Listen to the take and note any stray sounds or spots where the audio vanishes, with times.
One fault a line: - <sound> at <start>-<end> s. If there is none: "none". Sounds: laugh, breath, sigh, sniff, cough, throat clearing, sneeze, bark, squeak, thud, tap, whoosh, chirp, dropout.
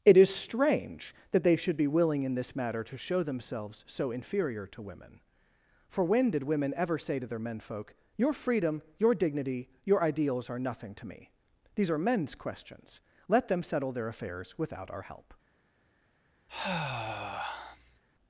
- sigh at 16.5-18.0 s